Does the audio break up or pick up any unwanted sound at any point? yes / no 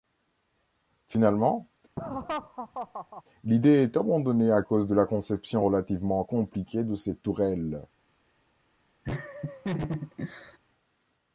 yes